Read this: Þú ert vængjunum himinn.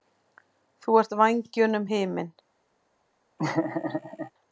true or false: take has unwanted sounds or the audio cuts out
true